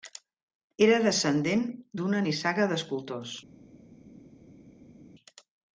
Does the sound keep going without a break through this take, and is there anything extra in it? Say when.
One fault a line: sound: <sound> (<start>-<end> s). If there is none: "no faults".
no faults